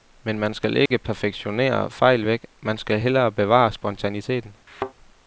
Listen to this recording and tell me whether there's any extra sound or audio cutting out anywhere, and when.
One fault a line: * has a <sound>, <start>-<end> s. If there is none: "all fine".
* has a dropout, 0.9-0.9 s
* has a thud, 4.7-4.9 s